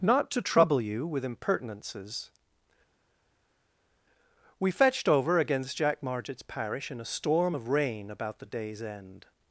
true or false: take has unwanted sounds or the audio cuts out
false